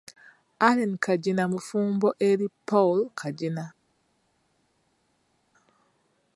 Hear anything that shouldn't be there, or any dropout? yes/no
no